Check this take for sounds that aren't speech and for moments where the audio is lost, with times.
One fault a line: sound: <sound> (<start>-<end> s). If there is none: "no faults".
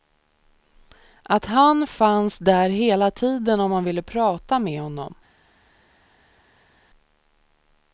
no faults